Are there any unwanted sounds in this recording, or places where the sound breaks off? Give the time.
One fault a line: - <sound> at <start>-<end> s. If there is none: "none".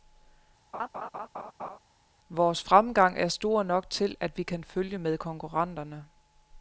- laugh at 0.7-1.8 s